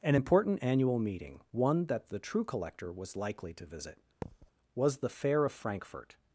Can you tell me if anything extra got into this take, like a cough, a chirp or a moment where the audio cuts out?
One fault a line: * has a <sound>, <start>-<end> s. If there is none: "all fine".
* has a thud, 4.2-4.5 s